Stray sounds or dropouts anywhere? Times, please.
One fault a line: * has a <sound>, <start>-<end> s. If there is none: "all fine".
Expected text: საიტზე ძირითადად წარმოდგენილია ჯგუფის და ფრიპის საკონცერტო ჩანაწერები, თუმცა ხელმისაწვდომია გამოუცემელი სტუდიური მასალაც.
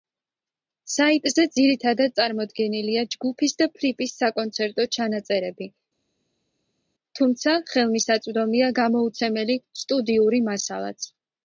all fine